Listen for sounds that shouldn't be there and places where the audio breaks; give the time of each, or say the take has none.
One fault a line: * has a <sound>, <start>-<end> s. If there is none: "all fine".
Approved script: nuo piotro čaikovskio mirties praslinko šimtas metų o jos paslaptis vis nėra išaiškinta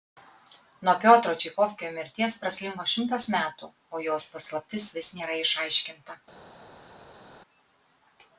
all fine